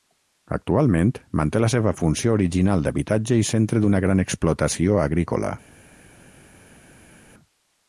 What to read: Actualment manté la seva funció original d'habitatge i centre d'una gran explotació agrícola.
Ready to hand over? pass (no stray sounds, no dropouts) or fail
pass